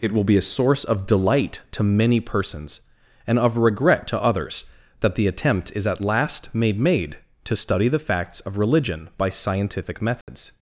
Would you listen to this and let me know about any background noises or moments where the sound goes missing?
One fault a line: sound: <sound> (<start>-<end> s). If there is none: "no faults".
sound: dropout (10.2-10.3 s)